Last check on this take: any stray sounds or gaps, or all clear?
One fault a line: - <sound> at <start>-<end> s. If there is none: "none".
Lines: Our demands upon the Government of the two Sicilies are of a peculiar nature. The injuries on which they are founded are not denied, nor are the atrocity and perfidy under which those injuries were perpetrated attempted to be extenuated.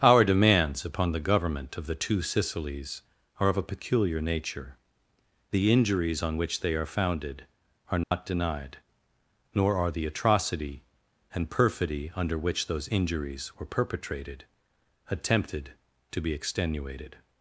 - dropout at 8.0-8.1 s